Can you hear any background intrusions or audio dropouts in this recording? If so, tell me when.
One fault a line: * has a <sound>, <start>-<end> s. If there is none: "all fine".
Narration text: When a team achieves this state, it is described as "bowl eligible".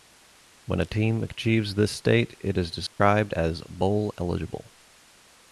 * has a dropout, 2.9-3.0 s